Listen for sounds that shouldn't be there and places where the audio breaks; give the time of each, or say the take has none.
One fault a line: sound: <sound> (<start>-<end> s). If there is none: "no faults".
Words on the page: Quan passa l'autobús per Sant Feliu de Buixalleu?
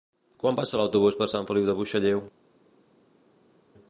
no faults